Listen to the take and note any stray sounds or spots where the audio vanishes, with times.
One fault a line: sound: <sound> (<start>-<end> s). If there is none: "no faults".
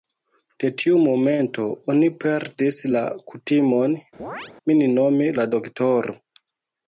sound: chirp (4.2-4.5 s)